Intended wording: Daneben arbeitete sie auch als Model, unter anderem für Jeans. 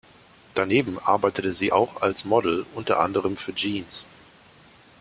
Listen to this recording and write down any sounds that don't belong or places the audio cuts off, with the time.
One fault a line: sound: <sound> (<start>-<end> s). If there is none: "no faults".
no faults